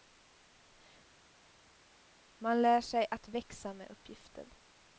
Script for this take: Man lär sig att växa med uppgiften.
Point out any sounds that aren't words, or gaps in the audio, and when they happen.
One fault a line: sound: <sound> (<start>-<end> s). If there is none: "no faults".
no faults